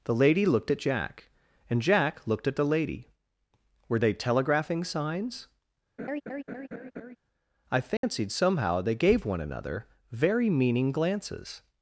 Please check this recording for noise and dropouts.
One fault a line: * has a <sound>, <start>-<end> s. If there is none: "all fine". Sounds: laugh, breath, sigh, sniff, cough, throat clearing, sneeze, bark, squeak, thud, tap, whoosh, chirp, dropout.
* has a laugh, 6.0-7.2 s
* has a dropout, 8.0-8.0 s